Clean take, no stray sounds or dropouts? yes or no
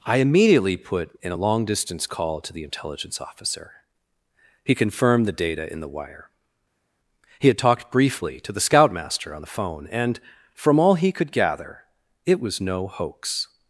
yes